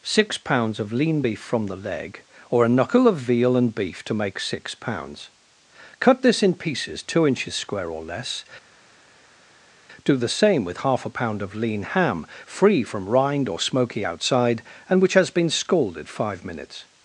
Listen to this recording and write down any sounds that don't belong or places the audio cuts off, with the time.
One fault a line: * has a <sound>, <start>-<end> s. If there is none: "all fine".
all fine